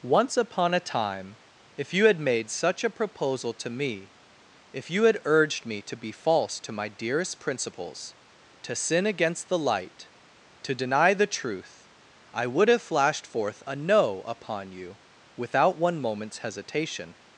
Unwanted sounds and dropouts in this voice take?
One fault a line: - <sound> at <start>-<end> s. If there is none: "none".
none